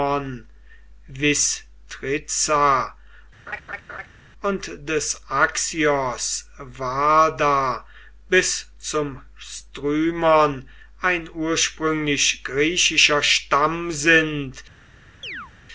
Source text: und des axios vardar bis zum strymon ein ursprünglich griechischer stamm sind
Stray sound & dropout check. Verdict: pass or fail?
fail